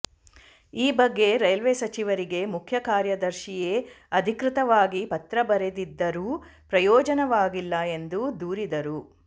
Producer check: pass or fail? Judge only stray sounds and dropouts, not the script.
pass